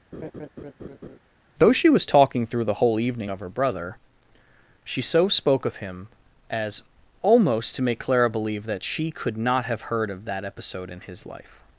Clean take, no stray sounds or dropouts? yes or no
no